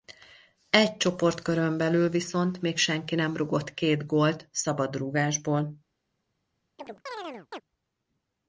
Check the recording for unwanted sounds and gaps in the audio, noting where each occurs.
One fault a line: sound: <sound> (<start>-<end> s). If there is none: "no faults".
sound: chirp (6.8-7.6 s)